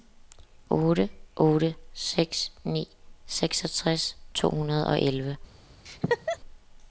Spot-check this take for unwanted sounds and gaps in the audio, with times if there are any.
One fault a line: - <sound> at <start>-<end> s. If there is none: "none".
- laugh at 5.9-6.4 s